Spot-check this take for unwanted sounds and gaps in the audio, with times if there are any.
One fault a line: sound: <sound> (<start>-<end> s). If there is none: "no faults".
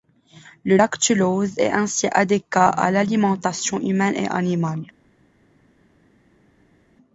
no faults